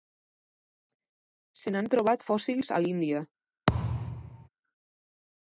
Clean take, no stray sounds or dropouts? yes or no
no